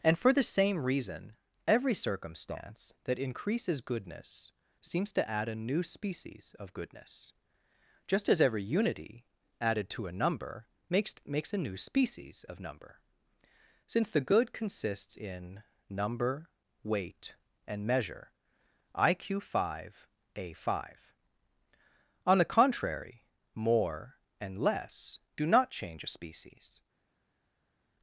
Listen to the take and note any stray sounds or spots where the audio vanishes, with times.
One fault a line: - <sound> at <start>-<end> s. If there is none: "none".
none